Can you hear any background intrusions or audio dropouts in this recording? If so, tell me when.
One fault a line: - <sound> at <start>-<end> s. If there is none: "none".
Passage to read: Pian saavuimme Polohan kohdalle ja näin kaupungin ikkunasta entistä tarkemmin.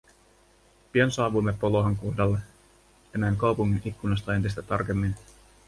none